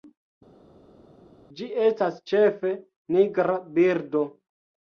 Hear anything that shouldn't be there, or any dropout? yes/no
no